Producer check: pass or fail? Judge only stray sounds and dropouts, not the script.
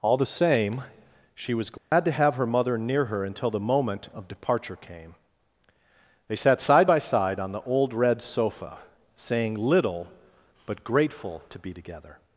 fail